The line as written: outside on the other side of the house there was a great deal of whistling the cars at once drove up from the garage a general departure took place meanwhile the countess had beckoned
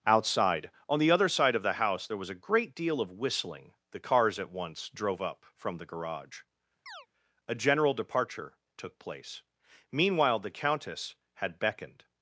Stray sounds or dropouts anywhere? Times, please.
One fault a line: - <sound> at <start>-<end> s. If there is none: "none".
- chirp at 6.9-7.1 s